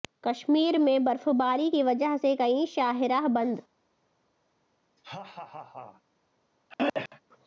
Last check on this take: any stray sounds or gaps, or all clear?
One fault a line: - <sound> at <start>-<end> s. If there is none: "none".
- laugh at 5.0-6.0 s
- throat clearing at 6.7-7.2 s